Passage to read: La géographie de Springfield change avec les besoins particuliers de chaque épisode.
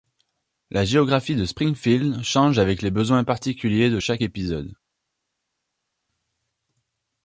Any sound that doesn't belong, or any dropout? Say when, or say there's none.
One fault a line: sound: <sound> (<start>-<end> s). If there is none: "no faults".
no faults